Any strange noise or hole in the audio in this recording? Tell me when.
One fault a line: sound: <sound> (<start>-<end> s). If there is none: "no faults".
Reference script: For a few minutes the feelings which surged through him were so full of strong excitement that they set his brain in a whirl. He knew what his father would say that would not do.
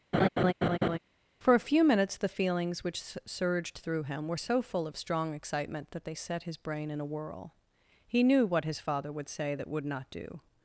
sound: laugh (0.1-1.0 s)